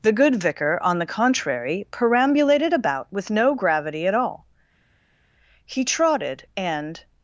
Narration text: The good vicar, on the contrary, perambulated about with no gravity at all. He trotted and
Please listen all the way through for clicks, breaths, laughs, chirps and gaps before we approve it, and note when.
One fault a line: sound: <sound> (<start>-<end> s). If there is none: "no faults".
no faults